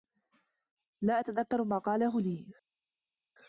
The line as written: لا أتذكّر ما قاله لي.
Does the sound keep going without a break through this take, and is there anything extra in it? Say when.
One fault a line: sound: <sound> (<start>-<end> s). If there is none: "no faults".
no faults